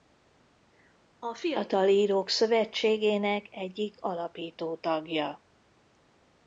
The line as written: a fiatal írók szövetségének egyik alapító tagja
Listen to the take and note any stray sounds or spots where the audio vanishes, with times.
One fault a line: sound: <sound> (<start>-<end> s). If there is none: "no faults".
no faults